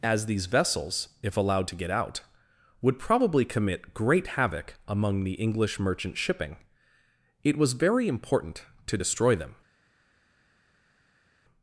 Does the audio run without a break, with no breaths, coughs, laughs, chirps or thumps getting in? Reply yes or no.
yes